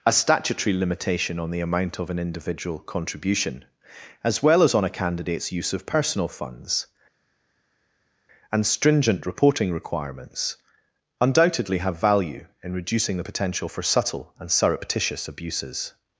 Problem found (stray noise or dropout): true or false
false